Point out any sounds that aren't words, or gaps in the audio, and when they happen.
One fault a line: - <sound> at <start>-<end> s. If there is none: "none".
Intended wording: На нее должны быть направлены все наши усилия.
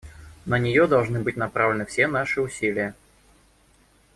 none